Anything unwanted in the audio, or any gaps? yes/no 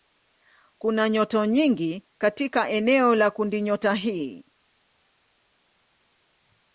no